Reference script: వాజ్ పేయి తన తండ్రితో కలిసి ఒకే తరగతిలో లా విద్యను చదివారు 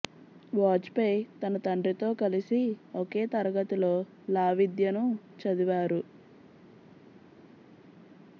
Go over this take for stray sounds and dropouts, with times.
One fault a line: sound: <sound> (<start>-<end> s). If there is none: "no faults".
no faults